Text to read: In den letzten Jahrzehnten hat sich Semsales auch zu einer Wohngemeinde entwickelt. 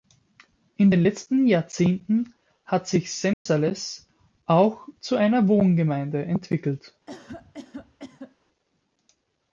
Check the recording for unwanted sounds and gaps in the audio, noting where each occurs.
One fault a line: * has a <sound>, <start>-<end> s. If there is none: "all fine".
* has a dropout, 3.3-3.5 s
* has a cough, 7.1-8.4 s